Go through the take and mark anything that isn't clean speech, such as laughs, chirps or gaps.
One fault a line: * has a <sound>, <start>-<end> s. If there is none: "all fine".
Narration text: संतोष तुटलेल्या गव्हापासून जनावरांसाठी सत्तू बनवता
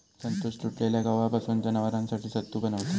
all fine